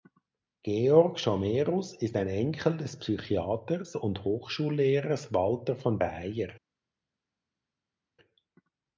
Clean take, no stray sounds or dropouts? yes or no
yes